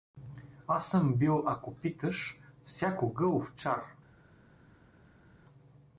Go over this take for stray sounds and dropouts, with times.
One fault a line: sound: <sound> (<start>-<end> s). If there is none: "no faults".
no faults